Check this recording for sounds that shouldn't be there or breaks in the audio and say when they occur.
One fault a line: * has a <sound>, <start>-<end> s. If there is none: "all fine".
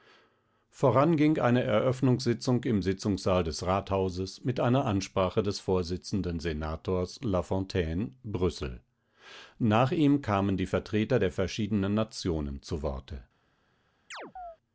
* has a chirp, 14.1-14.6 s